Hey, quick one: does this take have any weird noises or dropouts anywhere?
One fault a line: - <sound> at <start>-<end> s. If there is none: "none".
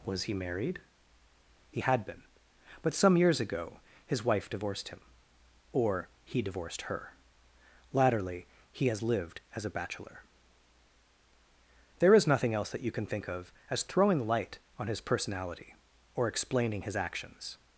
none